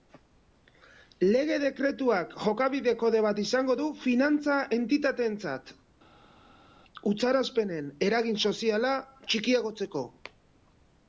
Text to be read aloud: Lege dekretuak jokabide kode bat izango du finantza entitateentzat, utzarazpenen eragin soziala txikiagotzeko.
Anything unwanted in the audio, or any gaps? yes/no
no